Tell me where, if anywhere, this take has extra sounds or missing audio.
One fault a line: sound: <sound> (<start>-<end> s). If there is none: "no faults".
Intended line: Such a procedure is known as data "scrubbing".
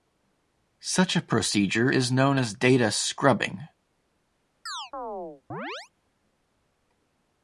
sound: chirp (4.7-5.9 s)